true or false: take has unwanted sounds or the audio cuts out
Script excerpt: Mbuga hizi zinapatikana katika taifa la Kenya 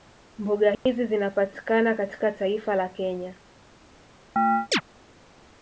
true